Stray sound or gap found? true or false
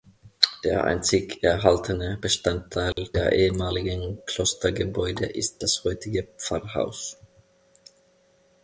true